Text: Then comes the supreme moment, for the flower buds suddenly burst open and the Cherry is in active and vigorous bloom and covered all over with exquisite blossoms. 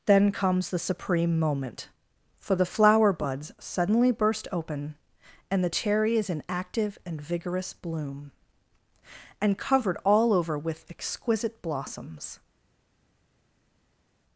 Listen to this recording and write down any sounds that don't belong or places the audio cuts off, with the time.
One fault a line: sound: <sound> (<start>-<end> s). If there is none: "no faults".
no faults